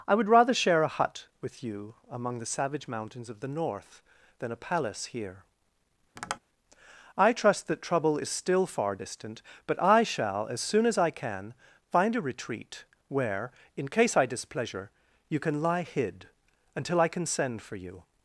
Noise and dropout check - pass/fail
fail